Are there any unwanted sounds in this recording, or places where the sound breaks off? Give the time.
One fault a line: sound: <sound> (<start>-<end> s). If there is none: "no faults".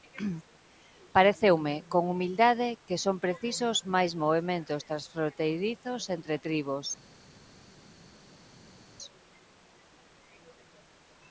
no faults